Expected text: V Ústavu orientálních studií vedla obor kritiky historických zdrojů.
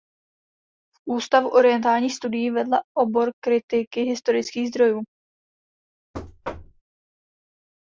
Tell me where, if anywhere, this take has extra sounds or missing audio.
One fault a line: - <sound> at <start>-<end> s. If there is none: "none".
- thud at 6.1-6.8 s